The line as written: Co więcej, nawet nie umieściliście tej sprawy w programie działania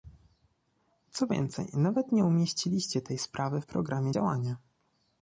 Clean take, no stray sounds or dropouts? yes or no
yes